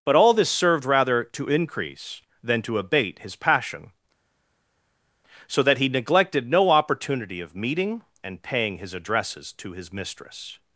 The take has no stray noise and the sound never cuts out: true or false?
true